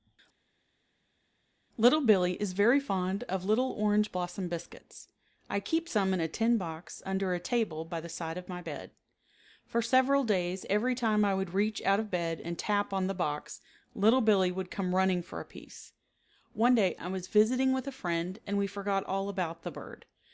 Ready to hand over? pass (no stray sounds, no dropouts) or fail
pass